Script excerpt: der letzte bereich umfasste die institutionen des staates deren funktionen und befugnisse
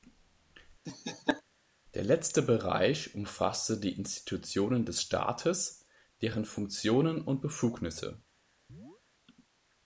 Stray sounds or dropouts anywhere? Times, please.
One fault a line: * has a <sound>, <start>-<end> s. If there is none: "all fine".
* has a laugh, 0.8-1.4 s
* has a chirp, 8.7-9.0 s